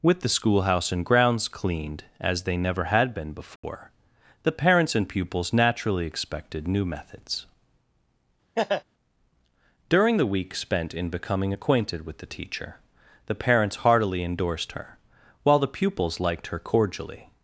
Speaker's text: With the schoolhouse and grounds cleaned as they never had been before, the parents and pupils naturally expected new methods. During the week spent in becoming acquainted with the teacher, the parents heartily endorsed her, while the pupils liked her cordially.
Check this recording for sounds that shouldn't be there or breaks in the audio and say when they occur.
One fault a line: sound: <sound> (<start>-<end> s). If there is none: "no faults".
sound: dropout (3.6-3.6 s)
sound: laugh (8.5-8.8 s)